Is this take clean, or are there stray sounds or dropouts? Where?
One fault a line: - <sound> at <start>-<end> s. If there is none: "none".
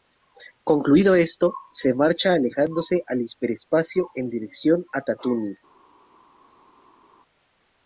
none